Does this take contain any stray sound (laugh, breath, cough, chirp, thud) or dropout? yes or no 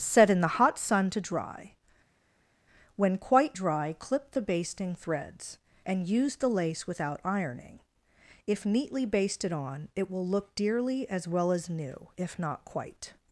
no